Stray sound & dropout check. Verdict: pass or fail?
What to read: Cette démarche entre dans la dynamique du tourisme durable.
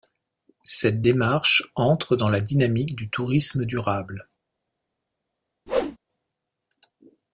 fail